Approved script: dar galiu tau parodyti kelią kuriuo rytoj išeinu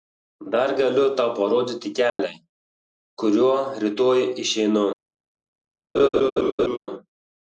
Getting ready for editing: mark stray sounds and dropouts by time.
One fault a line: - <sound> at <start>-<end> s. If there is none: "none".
- dropout at 2.1-2.2 s
- laugh at 5.9-6.8 s